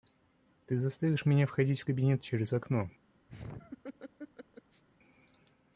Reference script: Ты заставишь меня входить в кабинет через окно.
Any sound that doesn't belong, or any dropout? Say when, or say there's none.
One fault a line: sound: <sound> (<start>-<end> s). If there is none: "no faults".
sound: laugh (3.3-4.8 s)